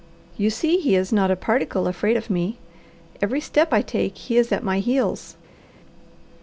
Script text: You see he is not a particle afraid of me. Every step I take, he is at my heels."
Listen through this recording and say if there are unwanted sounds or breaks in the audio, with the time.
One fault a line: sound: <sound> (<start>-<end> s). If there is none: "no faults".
no faults